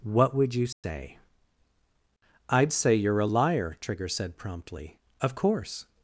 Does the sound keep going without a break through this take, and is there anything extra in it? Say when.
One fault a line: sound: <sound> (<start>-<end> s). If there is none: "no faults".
sound: dropout (0.7-0.8 s)